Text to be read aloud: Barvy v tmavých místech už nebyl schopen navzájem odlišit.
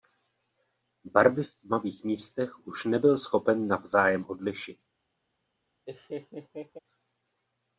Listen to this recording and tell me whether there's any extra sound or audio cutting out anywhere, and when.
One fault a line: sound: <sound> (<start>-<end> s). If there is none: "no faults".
sound: laugh (5.9-6.8 s)